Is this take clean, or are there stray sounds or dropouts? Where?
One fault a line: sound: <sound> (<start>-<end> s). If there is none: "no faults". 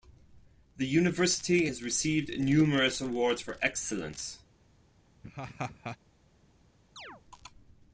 sound: laugh (5.2-6.0 s)
sound: chirp (7.0-7.2 s)